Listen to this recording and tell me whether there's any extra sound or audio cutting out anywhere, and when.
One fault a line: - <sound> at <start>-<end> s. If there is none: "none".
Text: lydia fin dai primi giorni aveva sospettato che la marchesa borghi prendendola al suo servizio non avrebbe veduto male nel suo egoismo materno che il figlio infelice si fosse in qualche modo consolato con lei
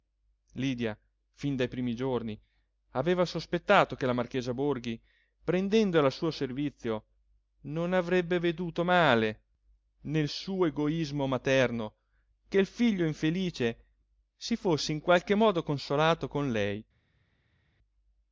none